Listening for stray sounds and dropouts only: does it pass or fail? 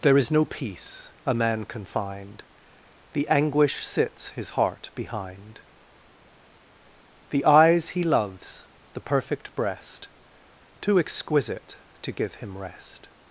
pass